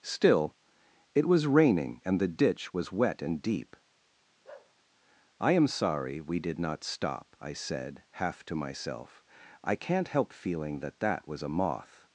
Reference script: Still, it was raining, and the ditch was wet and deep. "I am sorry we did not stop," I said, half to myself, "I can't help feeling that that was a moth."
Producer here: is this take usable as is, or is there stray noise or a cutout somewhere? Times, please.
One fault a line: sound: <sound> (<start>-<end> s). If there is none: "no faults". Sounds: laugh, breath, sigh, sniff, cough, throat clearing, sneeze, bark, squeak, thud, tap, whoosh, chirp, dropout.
sound: bark (4.4-4.7 s)